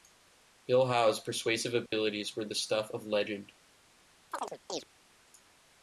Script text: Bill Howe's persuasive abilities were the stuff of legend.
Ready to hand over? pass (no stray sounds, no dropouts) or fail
fail